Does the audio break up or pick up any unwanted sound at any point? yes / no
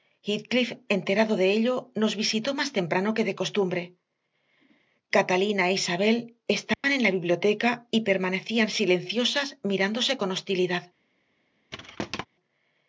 yes